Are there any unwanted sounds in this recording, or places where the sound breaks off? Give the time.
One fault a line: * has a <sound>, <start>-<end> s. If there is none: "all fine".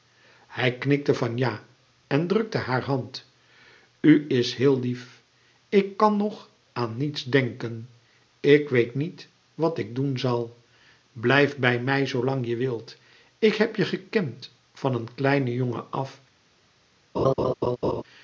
* has a laugh, 17.1-18.0 s